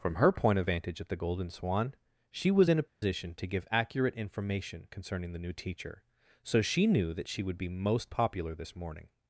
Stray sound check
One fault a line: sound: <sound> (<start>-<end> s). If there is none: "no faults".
sound: dropout (2.9-3.0 s)